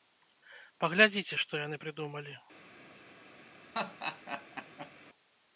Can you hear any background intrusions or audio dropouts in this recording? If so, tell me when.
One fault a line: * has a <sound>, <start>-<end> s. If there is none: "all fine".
* has a laugh, 3.7-4.9 s